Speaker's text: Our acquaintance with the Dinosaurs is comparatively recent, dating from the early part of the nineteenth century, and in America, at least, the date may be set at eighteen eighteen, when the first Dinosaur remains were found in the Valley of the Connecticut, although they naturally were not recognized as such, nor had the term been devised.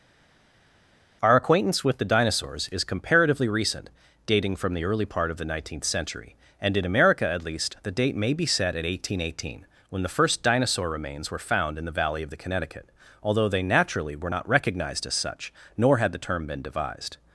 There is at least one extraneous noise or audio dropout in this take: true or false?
false